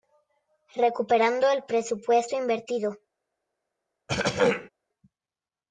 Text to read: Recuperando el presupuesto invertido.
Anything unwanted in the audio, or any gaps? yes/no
yes